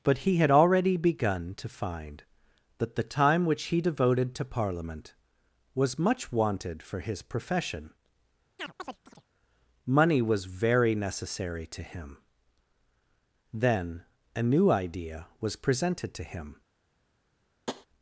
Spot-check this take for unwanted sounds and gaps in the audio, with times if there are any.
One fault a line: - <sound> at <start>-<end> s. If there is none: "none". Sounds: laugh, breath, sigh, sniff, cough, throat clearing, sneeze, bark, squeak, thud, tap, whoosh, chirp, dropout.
- chirp at 8.6-9.3 s
- tap at 17.7-17.9 s